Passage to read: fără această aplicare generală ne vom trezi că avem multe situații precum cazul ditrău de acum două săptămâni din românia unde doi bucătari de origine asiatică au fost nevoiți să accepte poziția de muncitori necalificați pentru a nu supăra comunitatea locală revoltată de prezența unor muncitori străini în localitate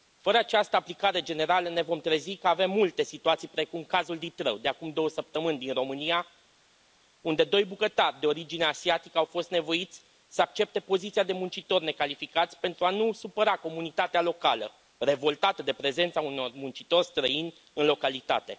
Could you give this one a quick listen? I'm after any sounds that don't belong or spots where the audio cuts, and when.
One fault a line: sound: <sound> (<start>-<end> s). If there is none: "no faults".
no faults